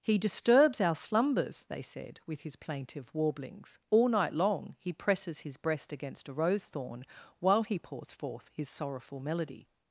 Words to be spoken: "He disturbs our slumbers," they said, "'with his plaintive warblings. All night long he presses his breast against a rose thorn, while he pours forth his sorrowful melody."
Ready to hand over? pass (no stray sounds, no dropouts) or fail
pass